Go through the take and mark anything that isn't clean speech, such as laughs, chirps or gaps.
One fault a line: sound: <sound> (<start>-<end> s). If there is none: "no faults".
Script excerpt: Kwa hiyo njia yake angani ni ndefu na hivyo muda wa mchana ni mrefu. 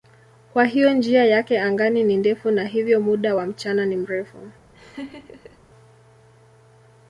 sound: laugh (4.7-5.6 s)